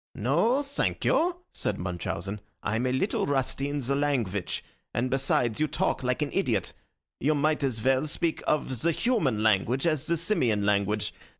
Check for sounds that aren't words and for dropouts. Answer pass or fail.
pass